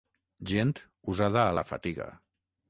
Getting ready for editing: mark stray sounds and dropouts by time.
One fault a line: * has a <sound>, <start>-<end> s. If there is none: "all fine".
all fine